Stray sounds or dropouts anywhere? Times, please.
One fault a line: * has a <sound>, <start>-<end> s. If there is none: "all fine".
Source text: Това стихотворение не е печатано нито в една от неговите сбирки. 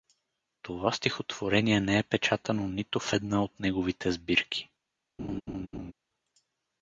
* has a laugh, 5.2-5.9 s